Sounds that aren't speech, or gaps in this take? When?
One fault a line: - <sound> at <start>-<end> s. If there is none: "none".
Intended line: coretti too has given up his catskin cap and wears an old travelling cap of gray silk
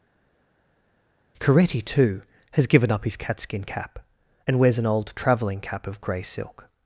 none